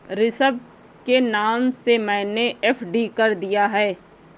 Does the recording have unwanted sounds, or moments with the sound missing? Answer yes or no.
no